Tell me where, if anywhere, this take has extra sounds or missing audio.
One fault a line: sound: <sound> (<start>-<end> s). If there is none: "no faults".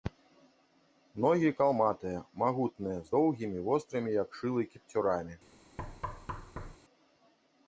sound: thud (5.8-6.8 s)